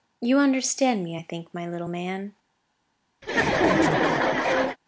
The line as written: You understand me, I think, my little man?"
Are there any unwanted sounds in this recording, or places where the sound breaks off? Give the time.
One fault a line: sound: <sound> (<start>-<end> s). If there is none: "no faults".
sound: laugh (3.2-4.8 s)